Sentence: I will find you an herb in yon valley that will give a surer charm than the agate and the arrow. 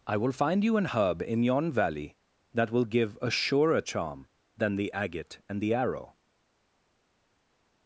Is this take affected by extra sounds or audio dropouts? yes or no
no